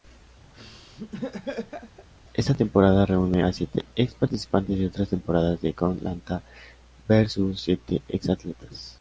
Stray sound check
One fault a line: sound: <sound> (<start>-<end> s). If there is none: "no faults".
sound: laugh (0.5-2.1 s)